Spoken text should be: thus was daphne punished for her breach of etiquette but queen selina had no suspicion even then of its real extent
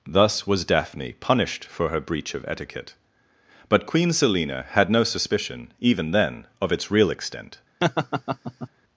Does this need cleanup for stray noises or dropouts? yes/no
yes